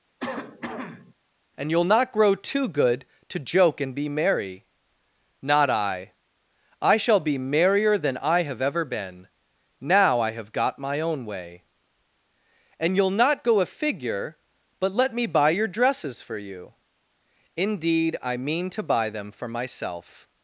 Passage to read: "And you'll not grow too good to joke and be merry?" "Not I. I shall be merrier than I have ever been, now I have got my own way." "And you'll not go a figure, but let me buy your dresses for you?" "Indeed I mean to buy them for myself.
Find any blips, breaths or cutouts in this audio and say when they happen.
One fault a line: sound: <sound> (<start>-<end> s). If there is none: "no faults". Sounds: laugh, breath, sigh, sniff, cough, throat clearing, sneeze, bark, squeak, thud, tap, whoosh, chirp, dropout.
sound: cough (0.2-1.1 s)